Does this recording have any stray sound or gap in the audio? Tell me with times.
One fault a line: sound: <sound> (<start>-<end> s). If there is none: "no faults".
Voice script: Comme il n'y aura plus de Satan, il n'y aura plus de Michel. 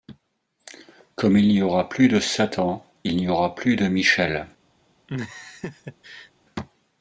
sound: laugh (5.1-6.3 s)